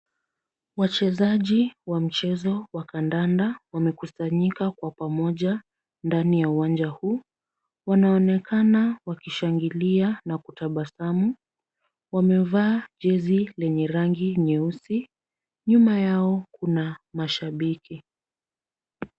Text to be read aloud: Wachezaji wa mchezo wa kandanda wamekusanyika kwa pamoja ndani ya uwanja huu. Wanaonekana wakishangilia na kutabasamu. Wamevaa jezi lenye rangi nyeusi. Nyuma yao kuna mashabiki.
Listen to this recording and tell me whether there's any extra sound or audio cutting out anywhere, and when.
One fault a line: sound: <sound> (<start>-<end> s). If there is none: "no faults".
no faults